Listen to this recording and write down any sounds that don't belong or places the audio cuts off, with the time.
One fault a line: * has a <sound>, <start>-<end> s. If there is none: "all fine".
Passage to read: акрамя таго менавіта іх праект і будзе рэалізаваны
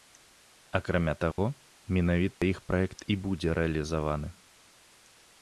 * has a dropout, 1.3-1.4 s
* has a dropout, 2.3-2.4 s